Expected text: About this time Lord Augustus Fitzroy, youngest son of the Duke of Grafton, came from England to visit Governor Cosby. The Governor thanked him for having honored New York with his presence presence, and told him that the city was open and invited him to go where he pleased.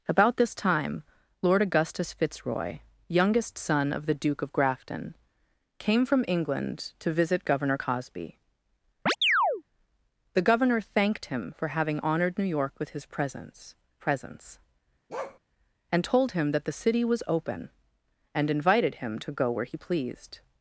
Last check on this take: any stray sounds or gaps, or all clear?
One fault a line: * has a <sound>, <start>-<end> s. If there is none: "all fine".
* has a chirp, 9.1-9.6 s
* has a bark, 15.1-15.4 s